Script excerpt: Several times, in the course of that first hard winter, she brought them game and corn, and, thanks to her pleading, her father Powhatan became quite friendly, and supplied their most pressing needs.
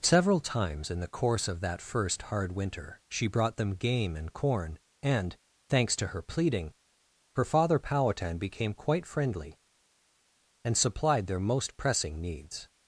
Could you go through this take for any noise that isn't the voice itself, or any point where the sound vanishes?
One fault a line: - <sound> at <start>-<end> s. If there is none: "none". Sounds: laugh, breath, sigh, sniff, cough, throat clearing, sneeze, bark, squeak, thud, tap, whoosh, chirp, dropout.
none